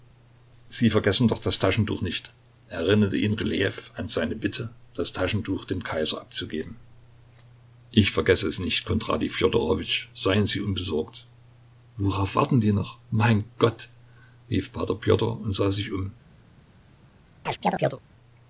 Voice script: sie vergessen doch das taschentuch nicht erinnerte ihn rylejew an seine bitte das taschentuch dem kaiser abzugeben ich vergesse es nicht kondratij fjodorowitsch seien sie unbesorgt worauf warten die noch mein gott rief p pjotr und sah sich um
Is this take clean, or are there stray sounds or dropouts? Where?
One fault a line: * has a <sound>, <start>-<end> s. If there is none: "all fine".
* has a chirp, 17.4-18.0 s